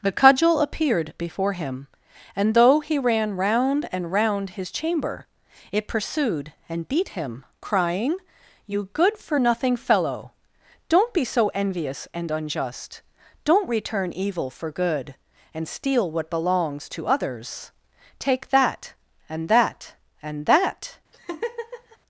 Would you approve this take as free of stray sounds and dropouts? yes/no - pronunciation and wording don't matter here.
no